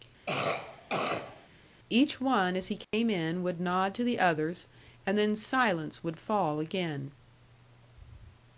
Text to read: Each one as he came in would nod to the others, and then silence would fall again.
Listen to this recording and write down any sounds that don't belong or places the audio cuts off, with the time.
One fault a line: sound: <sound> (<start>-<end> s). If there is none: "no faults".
sound: cough (0.3-1.5 s)
sound: dropout (2.8-2.9 s)